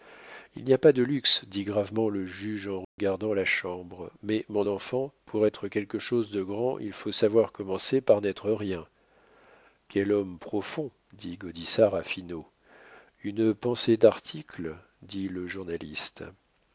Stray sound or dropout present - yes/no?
yes